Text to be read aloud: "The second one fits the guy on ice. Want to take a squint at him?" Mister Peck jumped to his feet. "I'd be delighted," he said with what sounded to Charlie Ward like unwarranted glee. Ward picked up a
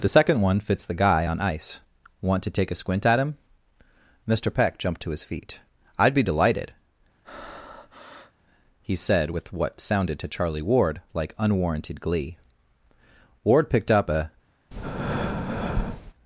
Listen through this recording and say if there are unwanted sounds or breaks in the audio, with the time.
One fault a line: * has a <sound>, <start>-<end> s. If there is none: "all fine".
* has a breath, 7.2-8.3 s
* has a breath, 14.7-16.1 s